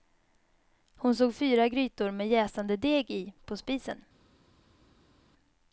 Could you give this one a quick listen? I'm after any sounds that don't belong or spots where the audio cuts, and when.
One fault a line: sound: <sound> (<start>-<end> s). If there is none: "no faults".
no faults